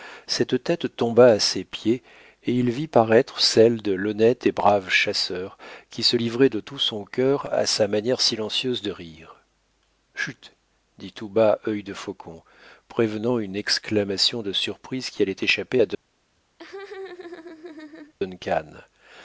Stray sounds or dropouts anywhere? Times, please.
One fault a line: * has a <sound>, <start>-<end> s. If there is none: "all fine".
* has a laugh, 16.6-18.1 s